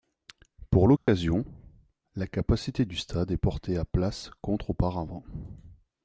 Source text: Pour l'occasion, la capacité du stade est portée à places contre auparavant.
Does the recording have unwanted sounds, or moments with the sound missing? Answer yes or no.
yes